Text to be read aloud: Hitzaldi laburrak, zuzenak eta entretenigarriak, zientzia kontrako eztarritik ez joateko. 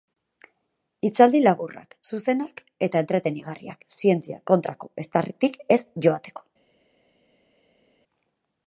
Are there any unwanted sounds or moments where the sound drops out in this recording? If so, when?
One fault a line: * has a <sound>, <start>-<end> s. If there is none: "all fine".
all fine